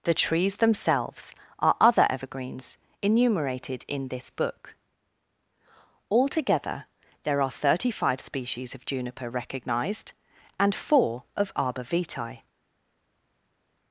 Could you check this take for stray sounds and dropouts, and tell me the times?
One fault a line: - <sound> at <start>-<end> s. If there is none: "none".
none